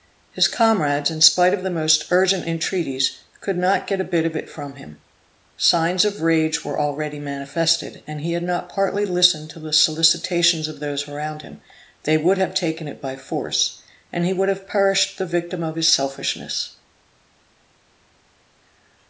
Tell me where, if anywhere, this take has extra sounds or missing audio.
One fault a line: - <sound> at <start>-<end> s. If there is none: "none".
none